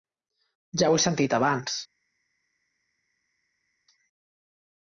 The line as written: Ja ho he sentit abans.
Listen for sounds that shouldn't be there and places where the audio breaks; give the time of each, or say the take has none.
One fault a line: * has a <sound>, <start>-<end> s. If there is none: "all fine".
all fine